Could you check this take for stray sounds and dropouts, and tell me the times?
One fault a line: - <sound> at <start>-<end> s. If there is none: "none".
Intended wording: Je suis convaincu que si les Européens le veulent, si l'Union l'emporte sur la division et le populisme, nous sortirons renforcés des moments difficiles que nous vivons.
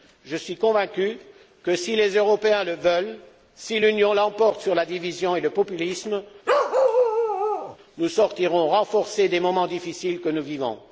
- bark at 6.5-7.8 s